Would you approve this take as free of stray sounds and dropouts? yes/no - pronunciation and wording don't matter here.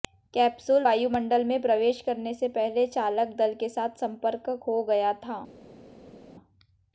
yes